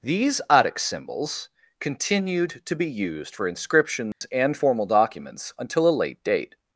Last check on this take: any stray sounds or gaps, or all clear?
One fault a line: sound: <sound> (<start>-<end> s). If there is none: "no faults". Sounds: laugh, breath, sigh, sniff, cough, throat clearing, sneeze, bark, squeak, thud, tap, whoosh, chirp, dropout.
sound: dropout (4.1-4.2 s)